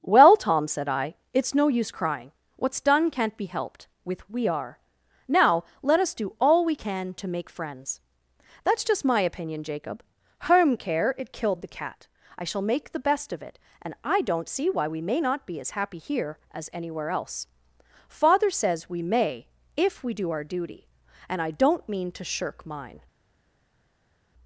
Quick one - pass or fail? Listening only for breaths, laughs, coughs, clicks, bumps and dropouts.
pass